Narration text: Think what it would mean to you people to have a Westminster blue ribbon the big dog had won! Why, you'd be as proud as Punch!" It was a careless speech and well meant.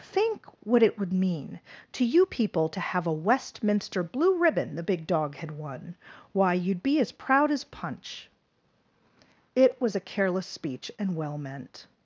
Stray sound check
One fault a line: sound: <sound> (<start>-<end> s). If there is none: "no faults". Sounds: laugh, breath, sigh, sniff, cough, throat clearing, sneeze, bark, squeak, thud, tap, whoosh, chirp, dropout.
no faults